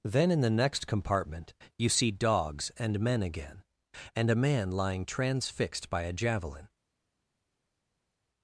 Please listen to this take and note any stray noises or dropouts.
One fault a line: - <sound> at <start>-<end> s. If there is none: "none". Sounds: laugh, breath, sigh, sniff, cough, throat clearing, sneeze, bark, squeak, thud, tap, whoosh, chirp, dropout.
none